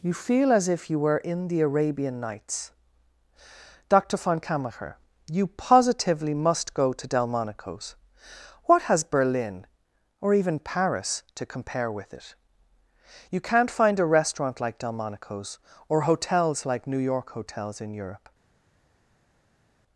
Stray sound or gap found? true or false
false